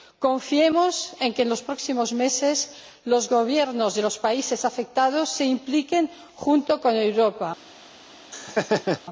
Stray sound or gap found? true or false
true